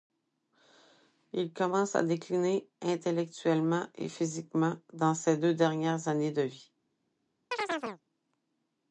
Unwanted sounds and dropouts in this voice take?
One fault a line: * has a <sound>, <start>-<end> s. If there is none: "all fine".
* has a chirp, 7.5-8.0 s